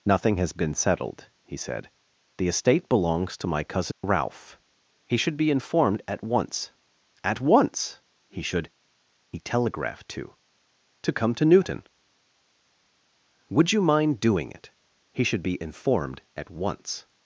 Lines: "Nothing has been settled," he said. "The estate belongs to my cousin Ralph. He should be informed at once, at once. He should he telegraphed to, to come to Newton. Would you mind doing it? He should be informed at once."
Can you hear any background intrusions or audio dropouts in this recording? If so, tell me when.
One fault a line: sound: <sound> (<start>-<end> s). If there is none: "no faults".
sound: dropout (3.9-4.0 s)